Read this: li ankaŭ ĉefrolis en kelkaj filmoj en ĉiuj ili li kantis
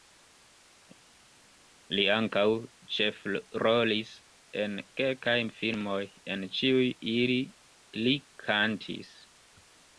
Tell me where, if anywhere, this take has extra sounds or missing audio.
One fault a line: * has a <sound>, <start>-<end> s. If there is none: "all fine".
all fine